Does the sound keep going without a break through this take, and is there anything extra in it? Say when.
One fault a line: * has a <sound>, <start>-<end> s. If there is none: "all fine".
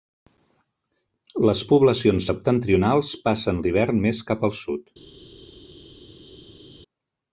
all fine